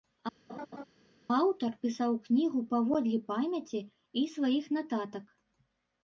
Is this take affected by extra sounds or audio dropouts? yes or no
yes